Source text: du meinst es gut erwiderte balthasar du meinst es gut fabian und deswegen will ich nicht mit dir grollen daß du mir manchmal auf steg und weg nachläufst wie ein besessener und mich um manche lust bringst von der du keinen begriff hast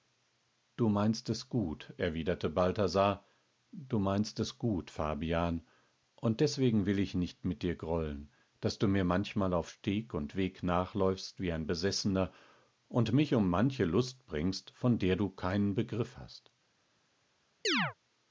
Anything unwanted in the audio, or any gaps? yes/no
yes